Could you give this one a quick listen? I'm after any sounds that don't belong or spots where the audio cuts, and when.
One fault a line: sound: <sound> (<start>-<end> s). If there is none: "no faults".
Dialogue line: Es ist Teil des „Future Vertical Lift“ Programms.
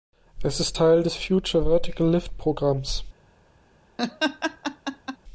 sound: laugh (4.0-5.2 s)